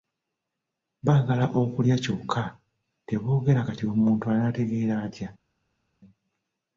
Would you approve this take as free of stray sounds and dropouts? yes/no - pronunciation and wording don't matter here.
yes